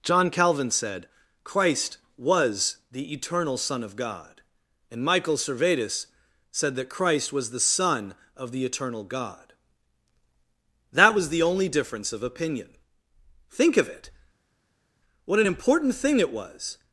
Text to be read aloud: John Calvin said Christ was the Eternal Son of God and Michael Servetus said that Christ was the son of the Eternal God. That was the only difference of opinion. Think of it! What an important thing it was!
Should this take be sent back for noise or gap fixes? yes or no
no